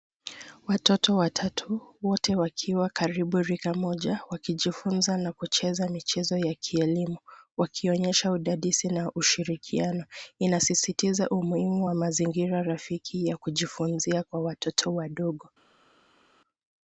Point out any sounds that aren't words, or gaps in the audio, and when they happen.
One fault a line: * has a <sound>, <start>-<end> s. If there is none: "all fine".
all fine